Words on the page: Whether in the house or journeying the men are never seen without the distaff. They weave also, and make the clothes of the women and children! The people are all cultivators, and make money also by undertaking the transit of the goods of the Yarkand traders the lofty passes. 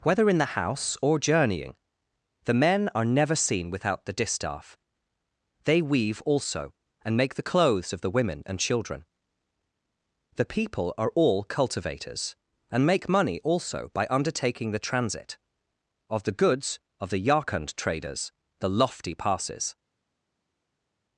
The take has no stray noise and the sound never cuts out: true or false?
true